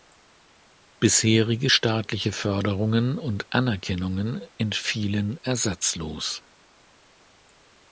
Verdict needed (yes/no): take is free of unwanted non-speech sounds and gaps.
yes